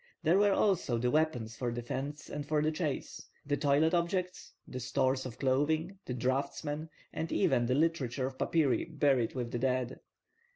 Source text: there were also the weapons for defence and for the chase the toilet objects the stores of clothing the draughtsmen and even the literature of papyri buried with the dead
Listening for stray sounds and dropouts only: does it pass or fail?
pass